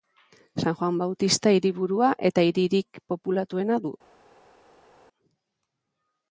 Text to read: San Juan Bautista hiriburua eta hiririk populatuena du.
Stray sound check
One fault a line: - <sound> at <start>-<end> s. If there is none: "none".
none